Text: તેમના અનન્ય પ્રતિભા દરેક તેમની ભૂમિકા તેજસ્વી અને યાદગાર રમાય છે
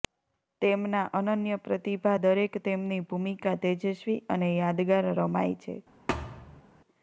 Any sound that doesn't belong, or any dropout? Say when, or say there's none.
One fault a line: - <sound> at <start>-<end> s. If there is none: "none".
- thud at 6.1-6.6 s